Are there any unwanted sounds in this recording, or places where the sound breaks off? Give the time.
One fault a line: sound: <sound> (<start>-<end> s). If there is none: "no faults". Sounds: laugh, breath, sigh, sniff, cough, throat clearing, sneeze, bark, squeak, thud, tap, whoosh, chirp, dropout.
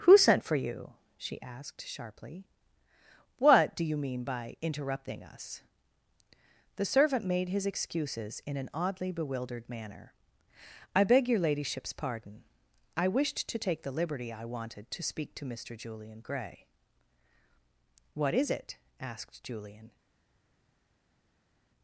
no faults